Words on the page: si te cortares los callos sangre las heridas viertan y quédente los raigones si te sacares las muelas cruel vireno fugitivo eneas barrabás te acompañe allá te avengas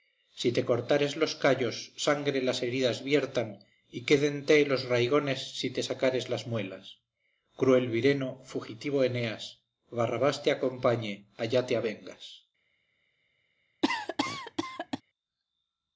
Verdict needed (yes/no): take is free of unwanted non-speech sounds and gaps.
no